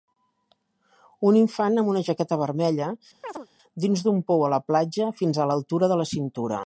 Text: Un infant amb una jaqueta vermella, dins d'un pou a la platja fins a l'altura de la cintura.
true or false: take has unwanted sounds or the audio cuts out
true